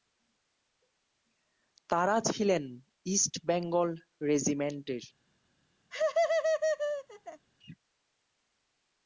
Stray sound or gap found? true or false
true